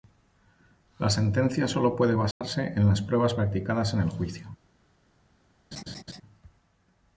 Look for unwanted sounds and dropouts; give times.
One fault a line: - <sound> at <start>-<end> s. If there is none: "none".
- dropout at 2.3-2.4 s
- laugh at 5.7-6.2 s